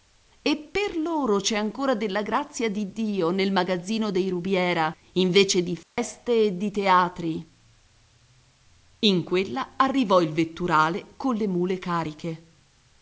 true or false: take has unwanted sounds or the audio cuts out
true